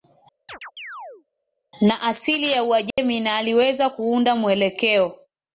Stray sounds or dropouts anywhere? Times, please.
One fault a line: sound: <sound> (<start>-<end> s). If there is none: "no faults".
sound: chirp (0.5-1.3 s)
sound: dropout (2.9-3.0 s)